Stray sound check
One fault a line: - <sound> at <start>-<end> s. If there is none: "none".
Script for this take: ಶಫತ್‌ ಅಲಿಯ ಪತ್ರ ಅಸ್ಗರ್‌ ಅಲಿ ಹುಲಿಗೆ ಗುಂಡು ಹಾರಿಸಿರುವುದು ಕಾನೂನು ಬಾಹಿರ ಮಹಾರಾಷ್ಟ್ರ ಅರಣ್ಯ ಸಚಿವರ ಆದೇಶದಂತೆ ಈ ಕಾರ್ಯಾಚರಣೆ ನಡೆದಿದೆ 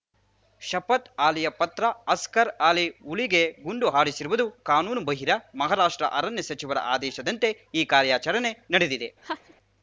- laugh at 9.2-9.5 s